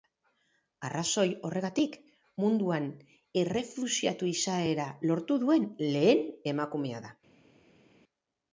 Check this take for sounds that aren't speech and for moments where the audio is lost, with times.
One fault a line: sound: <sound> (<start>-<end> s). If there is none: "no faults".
no faults